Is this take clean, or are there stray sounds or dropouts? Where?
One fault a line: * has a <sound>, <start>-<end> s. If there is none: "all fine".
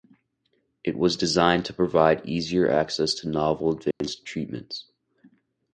* has a dropout, 3.9-4.0 s